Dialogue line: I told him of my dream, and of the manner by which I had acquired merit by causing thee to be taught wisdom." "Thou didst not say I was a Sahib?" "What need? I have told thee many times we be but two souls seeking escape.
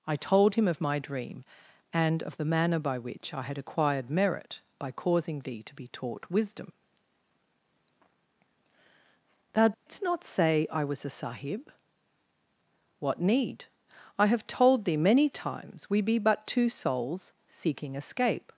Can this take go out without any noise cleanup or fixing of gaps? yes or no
no